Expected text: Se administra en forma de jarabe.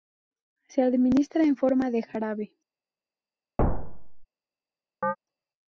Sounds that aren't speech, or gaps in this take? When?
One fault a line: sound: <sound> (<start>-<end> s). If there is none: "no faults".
sound: thud (3.6-4.3 s)
sound: chirp (5.0-5.2 s)